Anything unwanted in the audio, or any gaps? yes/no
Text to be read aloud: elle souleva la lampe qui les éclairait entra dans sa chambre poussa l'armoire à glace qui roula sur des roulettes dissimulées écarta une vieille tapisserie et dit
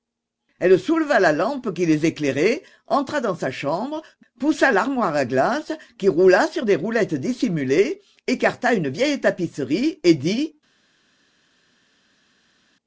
no